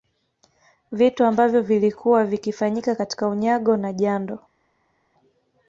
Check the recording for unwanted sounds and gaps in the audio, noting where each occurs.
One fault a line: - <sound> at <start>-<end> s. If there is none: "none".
none